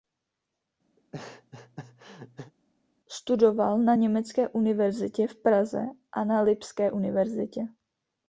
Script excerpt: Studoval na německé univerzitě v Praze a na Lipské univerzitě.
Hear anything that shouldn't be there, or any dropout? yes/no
yes